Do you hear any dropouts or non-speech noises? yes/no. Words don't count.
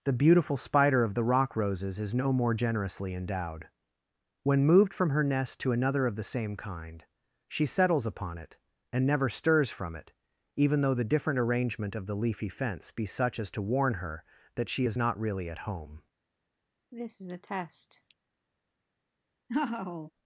yes